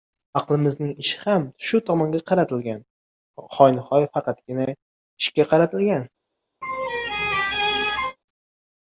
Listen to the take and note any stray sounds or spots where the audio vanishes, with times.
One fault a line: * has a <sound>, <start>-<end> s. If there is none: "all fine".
* has a laugh, 6.6-8.2 s